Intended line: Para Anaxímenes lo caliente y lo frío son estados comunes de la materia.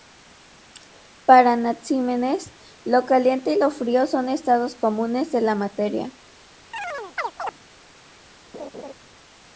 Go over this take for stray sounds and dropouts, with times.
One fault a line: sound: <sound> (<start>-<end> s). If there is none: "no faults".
sound: chirp (6.7-7.6 s)
sound: laugh (8.5-8.9 s)